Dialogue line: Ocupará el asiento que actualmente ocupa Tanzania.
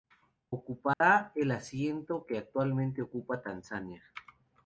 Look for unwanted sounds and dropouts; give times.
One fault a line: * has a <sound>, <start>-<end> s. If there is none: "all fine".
* has a dropout, 0.9-1.0 s